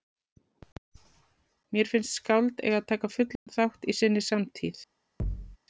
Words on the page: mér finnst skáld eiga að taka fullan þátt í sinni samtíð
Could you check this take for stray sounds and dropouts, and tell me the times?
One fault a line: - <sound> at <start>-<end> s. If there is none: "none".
- dropout at 3.4-3.5 s
- thud at 5.2-5.6 s